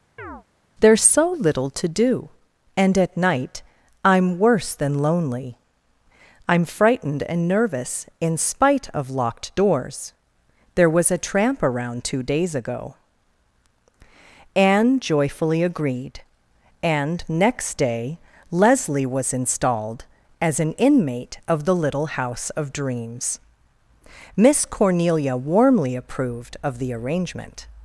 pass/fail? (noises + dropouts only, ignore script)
fail